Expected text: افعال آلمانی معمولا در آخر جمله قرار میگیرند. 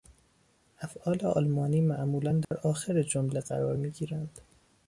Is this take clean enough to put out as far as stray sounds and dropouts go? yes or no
no